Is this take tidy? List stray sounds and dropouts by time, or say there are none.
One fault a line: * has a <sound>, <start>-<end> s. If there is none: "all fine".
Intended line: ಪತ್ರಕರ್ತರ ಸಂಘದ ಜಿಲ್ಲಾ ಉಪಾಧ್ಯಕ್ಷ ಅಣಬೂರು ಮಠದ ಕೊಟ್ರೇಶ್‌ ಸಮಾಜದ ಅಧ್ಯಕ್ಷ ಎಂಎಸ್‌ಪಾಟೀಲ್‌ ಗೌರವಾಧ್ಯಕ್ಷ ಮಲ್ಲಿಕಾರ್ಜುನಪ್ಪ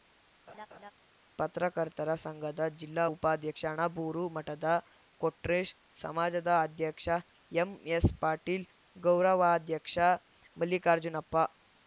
* has a laugh, 0.5-0.9 s